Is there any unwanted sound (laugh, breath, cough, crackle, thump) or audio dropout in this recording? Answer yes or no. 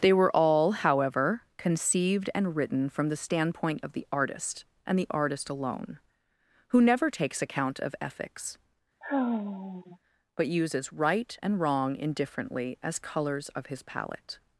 yes